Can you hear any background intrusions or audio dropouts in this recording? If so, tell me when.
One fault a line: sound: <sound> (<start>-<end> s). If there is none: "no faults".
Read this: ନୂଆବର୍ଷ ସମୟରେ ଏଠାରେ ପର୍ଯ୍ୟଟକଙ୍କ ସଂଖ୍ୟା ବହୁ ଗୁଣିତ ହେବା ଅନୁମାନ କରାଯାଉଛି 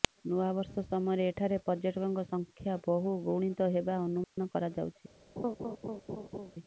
sound: dropout (4.2-4.4 s)
sound: laugh (5.4-6.5 s)